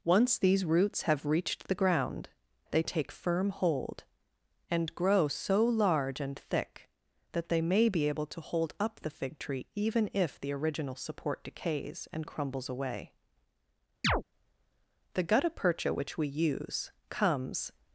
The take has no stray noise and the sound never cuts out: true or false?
false